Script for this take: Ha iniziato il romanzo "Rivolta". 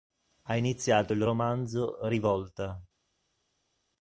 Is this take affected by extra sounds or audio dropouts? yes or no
no